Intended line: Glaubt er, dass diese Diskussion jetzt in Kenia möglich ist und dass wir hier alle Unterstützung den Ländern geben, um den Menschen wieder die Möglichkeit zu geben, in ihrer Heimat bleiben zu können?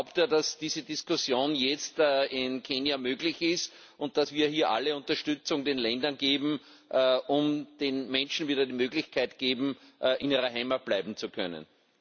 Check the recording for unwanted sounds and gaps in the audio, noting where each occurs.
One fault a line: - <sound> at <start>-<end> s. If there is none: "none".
none